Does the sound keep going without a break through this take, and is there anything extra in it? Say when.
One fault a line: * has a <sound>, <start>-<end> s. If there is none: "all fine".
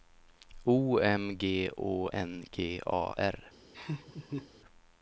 * has a laugh, 3.7-4.5 s